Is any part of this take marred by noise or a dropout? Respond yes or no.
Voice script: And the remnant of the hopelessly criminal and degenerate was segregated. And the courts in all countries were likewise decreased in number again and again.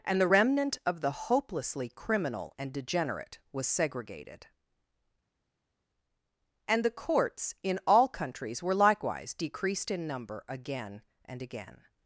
no